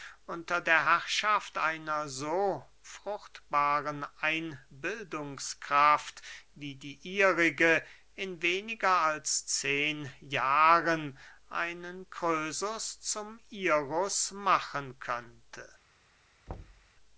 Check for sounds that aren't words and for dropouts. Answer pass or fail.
fail